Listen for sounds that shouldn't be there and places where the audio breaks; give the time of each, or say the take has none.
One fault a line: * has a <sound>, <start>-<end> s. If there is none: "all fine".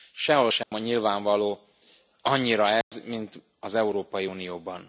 * has a dropout, 0.6-0.7 s
* has a dropout, 2.8-2.9 s